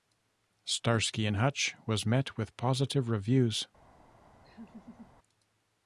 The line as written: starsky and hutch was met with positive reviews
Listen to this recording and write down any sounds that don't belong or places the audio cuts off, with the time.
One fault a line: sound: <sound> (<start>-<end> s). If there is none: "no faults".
sound: laugh (4.4-5.1 s)